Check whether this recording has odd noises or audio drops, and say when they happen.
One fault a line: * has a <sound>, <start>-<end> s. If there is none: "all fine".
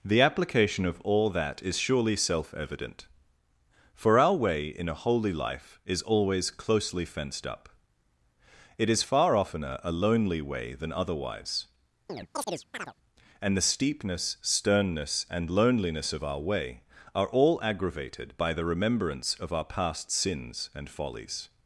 * has a chirp, 12.1-12.9 s